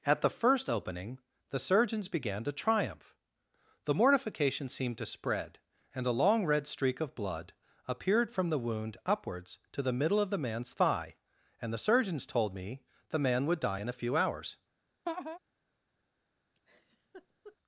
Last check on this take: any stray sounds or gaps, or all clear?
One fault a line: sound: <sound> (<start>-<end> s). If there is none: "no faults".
sound: laugh (15.1-15.4 s)
sound: laugh (16.5-17.6 s)